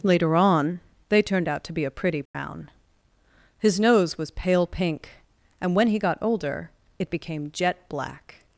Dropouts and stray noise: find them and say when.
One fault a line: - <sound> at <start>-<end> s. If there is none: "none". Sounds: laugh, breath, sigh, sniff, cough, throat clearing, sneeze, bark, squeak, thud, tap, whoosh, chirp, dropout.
- dropout at 2.3-2.3 s